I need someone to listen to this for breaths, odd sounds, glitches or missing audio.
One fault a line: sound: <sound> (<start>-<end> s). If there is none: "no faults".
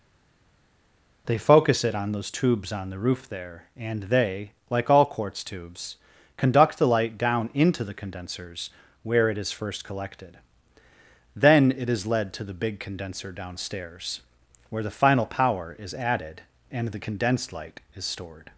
no faults